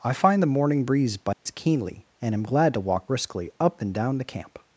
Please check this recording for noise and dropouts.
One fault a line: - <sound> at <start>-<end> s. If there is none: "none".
- dropout at 1.3-1.5 s